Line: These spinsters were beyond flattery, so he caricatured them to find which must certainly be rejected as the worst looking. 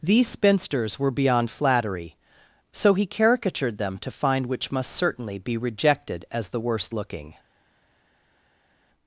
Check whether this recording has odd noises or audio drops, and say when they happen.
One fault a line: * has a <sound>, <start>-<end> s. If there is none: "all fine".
all fine